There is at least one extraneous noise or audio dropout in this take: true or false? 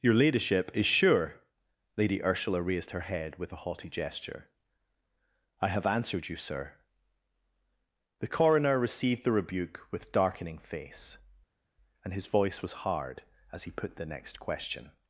false